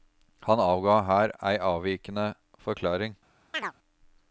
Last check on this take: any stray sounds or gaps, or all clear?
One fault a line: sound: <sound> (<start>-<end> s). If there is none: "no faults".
sound: chirp (3.5-3.7 s)